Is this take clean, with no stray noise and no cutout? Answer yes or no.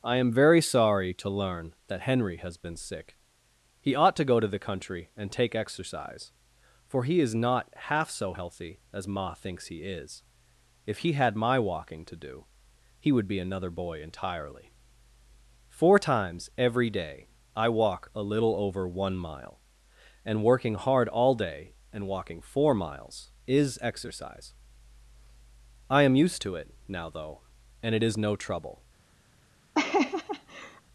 no